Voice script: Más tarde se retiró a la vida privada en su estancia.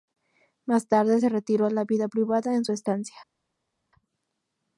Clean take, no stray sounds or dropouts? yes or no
yes